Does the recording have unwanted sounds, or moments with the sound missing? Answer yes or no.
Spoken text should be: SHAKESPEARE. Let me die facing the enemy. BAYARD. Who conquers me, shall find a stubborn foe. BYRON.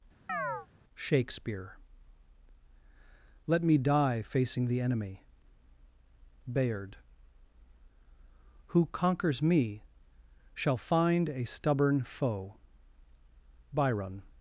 yes